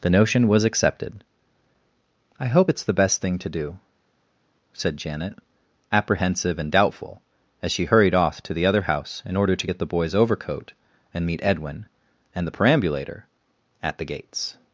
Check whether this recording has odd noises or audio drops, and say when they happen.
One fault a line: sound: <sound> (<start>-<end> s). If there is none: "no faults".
no faults